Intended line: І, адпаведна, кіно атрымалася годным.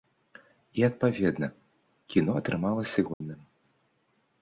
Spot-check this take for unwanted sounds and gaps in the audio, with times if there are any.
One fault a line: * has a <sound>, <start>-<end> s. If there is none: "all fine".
* has a dropout, 3.1-3.2 s